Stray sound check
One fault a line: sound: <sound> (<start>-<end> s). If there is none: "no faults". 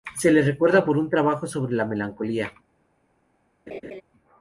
sound: laugh (3.7-4.0 s)